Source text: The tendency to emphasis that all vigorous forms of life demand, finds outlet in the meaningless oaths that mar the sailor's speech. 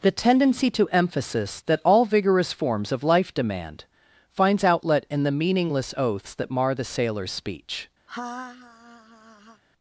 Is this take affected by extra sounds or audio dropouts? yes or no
yes